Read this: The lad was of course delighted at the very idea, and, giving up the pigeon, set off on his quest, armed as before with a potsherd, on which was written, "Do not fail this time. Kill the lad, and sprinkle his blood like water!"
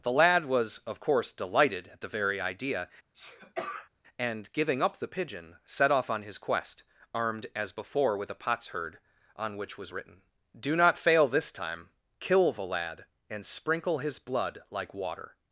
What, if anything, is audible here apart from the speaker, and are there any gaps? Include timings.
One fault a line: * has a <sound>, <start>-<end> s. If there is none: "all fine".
* has a sneeze, 3.1-3.9 s